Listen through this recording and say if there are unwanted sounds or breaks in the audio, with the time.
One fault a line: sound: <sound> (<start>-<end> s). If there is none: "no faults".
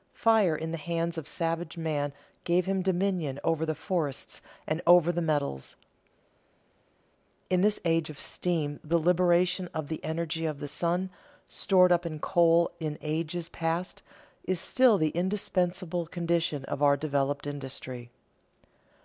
no faults